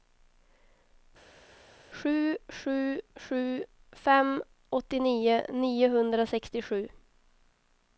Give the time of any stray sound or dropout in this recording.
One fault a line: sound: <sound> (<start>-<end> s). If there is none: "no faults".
no faults